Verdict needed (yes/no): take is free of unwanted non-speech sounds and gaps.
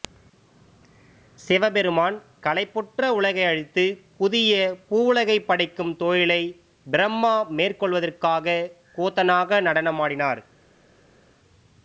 yes